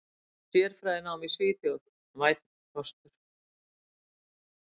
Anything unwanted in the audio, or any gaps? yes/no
no